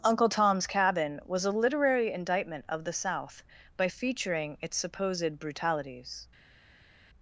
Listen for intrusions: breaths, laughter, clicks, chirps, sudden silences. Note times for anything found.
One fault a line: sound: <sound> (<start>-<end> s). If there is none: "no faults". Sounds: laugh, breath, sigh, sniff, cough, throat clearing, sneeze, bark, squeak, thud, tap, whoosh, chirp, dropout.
no faults